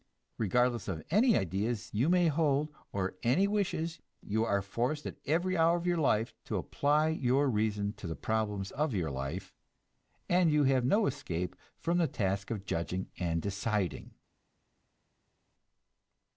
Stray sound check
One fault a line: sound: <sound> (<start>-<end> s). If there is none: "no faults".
no faults